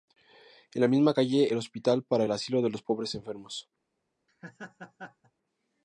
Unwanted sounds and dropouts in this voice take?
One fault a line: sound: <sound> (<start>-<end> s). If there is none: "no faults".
sound: laugh (4.3-5.3 s)